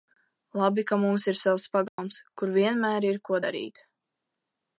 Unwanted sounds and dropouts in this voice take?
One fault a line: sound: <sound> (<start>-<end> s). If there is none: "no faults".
sound: dropout (1.9-2.0 s)